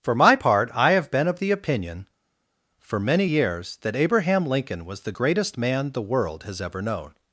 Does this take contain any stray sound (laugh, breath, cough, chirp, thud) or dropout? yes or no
no